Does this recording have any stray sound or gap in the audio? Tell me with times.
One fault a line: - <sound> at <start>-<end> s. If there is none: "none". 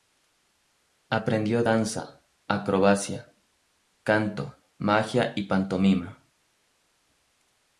none